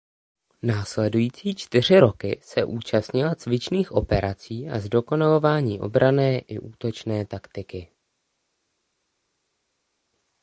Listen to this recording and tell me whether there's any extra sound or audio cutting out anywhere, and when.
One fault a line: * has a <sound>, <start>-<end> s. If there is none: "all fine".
all fine